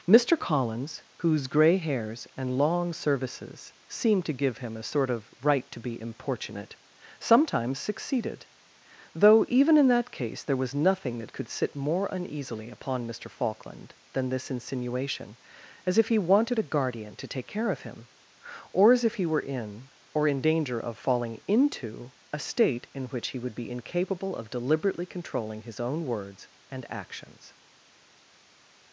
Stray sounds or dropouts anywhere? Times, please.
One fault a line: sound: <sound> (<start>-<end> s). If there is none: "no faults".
no faults